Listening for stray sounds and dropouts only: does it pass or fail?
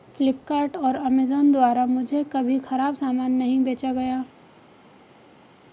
pass